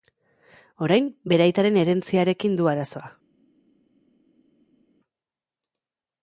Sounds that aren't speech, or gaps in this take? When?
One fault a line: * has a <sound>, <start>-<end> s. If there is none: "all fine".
all fine